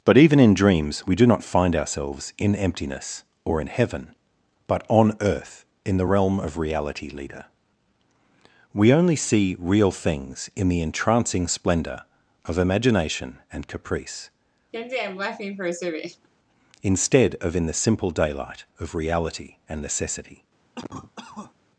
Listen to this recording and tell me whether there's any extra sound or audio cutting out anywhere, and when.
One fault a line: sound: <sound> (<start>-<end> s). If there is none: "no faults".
sound: laugh (14.7-16.3 s)
sound: cough (20.8-21.5 s)